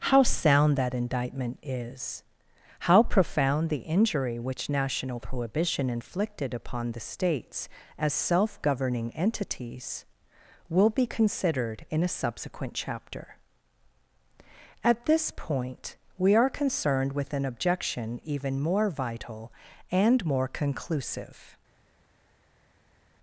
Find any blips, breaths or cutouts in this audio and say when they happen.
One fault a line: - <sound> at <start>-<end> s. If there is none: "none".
none